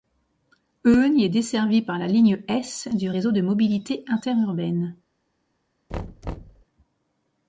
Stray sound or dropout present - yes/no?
yes